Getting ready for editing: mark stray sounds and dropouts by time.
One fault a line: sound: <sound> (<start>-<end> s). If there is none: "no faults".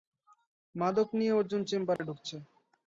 sound: dropout (2.0-2.0 s)